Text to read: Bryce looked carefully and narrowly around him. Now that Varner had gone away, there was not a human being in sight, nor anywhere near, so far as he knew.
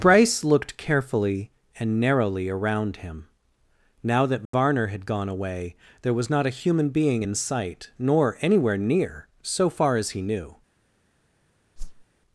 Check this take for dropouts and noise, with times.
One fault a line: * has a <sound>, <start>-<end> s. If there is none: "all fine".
* has a dropout, 4.5-4.5 s
* has a whoosh, 11.8-12.0 s